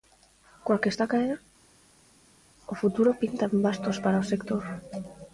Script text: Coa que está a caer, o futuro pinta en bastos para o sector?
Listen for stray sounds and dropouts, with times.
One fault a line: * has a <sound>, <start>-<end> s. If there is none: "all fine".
all fine